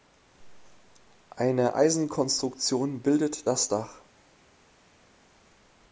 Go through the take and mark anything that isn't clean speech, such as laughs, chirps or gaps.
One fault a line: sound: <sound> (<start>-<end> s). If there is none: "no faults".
no faults